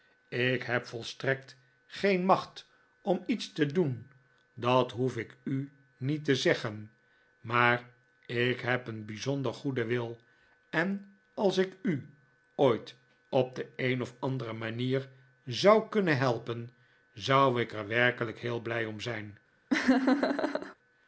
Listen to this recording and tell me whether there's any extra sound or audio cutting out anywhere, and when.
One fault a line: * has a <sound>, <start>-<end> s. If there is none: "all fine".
* has a laugh, 19.7-20.7 s